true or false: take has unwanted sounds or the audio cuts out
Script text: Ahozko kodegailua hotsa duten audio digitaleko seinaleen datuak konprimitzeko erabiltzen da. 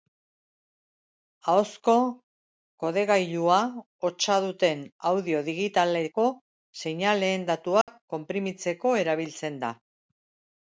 true